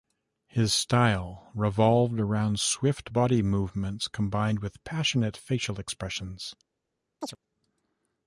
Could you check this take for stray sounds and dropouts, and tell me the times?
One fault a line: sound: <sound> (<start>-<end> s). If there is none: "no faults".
sound: chirp (7.2-7.4 s)